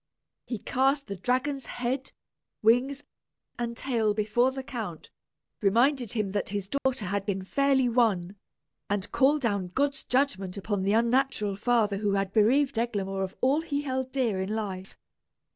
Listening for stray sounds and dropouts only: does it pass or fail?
fail